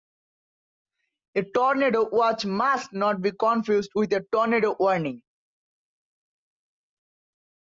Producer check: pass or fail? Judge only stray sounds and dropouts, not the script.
pass